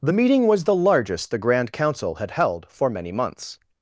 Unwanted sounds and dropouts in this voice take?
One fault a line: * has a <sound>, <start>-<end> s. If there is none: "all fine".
all fine